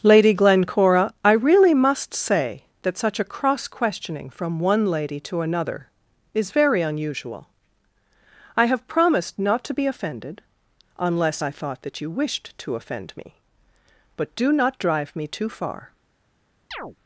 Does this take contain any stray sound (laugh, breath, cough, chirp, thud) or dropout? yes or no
yes